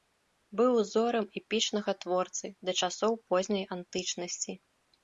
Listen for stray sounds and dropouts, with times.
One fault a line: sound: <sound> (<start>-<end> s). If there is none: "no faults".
no faults